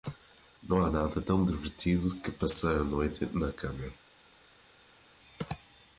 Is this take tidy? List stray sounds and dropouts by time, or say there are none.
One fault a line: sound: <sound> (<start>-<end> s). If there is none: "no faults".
no faults